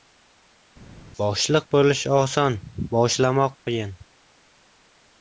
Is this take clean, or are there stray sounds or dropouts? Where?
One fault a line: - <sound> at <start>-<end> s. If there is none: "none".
none